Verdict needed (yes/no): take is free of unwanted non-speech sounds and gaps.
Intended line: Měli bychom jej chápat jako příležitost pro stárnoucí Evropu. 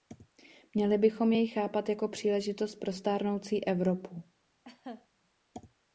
no